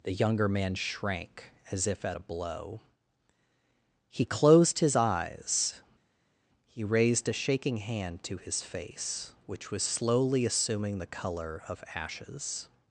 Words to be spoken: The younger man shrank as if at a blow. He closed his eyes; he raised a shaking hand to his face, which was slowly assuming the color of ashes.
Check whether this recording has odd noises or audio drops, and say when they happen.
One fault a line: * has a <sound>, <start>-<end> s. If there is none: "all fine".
all fine